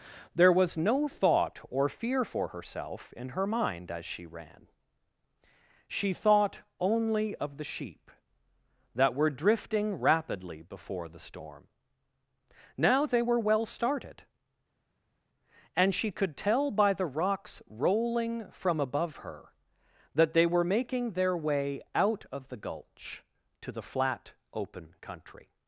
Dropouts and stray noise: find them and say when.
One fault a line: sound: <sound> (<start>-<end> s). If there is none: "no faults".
no faults